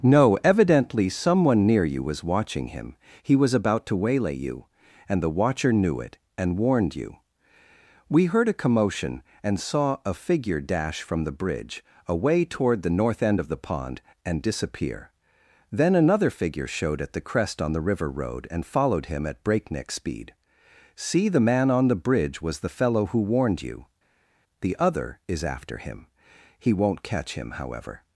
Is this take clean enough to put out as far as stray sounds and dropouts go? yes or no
yes